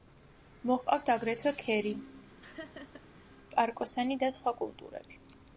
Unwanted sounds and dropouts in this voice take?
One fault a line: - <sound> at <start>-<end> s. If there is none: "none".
- laugh at 2.4-3.1 s